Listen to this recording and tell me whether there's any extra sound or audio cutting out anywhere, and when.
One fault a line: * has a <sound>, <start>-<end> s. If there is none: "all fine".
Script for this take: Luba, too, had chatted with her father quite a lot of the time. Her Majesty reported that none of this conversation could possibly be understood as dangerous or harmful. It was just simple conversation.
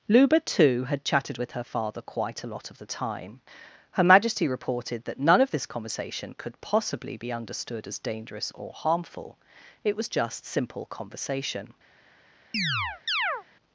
* has a chirp, 12.5-13.4 s